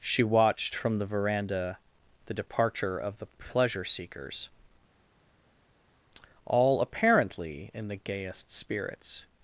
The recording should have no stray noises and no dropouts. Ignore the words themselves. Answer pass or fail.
pass